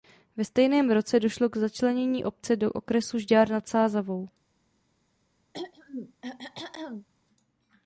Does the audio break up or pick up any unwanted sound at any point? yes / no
yes